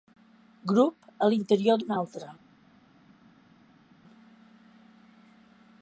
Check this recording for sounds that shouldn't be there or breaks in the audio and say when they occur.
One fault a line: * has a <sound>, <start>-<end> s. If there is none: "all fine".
all fine